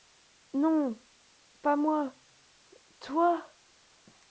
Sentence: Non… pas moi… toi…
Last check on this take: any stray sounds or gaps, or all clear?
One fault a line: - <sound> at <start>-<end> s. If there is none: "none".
none